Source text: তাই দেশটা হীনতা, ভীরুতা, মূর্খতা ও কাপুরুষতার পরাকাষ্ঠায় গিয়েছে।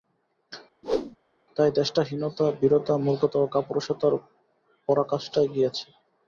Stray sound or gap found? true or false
true